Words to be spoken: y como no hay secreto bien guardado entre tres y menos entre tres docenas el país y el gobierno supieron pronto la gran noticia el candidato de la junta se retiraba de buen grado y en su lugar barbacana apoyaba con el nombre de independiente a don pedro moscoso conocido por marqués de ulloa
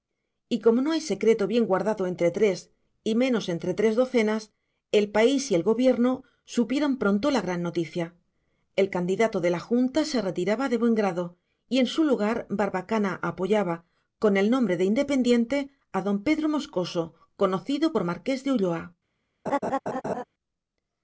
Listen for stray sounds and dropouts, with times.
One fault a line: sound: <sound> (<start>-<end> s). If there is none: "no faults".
sound: laugh (19.5-20.2 s)